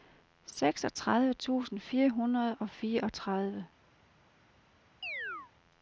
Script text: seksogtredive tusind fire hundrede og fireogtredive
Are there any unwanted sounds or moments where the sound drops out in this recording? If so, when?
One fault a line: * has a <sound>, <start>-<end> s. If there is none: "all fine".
* has a chirp, 5.0-5.5 s